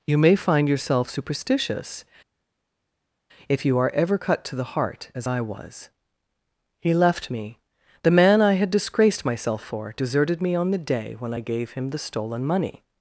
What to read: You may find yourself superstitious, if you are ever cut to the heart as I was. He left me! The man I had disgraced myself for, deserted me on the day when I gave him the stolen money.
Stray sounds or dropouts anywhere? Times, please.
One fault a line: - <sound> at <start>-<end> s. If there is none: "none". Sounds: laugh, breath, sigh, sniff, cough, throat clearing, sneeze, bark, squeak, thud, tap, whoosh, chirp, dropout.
none